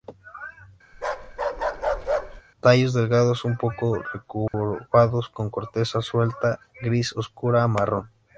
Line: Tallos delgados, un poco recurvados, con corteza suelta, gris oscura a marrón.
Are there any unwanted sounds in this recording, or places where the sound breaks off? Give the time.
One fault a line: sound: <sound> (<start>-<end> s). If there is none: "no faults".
sound: bark (0.9-2.4 s)
sound: dropout (4.5-4.5 s)